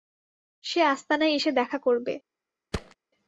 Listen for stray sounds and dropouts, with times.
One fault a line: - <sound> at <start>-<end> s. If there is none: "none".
- thud at 2.7-3.0 s